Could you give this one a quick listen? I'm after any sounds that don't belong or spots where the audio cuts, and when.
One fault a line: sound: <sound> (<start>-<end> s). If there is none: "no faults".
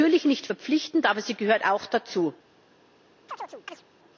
sound: chirp (3.3-3.8 s)